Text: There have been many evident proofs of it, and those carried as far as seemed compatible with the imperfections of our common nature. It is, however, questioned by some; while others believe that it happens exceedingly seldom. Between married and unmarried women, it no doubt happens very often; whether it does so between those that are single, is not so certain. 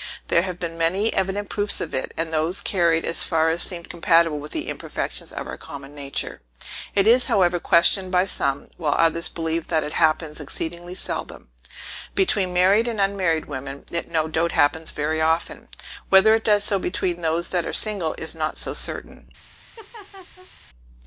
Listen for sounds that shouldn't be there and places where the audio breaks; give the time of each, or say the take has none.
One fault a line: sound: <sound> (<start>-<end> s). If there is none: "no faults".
sound: laugh (19.8-20.5 s)